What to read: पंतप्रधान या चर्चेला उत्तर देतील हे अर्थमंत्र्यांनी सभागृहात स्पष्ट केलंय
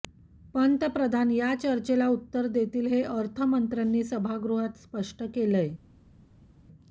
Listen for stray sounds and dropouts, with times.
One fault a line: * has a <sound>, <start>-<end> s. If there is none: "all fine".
all fine